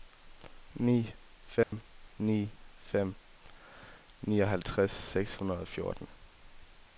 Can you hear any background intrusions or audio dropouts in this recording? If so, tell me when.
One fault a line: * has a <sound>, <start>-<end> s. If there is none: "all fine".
* has a dropout, 1.6-1.7 s